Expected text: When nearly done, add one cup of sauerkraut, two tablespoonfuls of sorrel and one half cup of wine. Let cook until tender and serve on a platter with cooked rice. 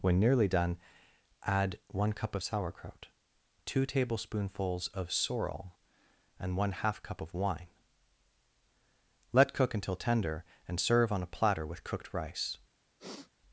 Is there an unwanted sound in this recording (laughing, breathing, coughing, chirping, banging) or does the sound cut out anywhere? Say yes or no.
yes